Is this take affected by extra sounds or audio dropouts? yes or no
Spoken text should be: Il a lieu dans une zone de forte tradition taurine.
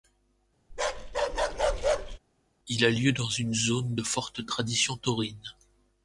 yes